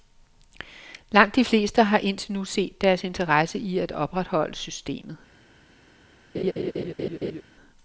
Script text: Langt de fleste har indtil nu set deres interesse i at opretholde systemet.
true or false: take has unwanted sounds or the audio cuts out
true